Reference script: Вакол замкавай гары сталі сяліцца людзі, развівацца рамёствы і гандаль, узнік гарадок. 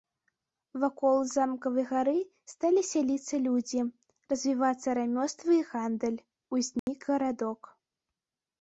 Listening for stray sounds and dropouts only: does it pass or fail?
fail